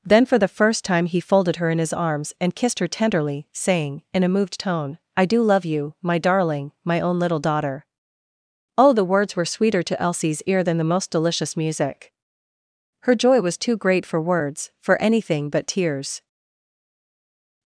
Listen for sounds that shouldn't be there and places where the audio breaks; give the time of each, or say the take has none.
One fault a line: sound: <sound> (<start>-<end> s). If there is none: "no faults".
no faults